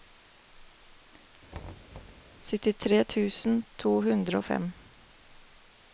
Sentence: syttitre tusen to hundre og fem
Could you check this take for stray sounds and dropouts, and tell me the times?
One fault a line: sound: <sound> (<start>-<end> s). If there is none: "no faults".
sound: thud (1.5-2.3 s)